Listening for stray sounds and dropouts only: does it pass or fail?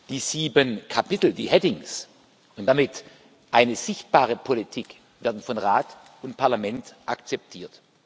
pass